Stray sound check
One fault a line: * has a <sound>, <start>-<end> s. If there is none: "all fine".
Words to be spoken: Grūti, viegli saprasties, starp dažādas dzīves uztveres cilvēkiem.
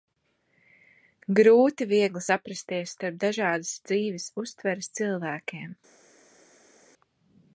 all fine